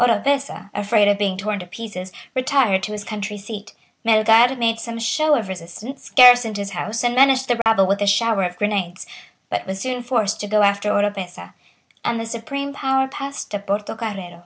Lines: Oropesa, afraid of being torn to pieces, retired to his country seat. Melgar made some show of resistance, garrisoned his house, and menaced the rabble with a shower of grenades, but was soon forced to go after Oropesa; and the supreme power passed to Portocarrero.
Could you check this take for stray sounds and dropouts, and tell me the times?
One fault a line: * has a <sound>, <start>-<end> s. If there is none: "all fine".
* has a dropout, 7.6-7.7 s